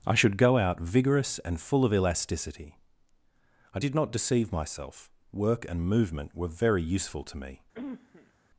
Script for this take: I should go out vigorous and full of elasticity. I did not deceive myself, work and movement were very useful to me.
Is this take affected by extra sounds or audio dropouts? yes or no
yes